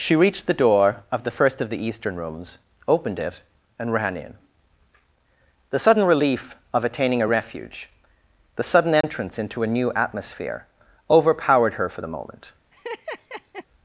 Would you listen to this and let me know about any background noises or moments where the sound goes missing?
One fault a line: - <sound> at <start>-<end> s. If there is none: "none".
- dropout at 9.0-9.0 s
- laugh at 12.7-13.7 s